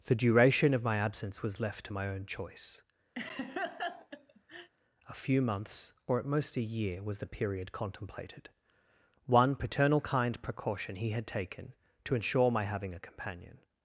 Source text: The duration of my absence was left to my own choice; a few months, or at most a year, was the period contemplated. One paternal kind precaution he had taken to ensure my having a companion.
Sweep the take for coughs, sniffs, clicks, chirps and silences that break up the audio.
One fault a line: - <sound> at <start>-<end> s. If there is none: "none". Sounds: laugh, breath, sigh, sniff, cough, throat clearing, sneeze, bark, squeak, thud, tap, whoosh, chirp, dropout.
- laugh at 3.2-4.7 s